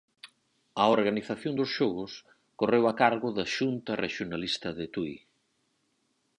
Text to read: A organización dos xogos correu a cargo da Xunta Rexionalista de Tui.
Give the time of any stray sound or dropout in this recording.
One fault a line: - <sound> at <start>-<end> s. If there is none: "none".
none